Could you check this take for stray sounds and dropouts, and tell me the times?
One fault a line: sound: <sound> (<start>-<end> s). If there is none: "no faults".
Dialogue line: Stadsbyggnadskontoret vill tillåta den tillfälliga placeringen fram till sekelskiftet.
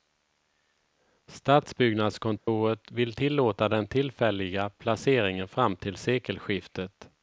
sound: dropout (2.4-2.5 s)